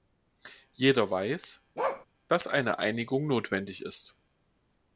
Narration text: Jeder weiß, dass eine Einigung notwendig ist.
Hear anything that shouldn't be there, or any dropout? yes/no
yes